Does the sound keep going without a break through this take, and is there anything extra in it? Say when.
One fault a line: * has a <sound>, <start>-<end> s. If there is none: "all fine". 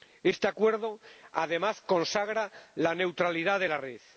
all fine